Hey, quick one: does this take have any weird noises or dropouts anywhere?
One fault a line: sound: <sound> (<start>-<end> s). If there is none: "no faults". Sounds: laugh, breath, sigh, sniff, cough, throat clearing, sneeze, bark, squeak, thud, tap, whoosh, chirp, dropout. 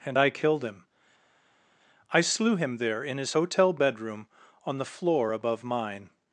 no faults